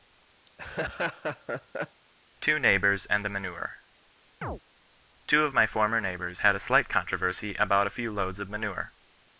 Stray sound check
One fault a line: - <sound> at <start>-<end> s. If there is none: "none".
- laugh at 0.5-2.0 s
- chirp at 4.4-4.6 s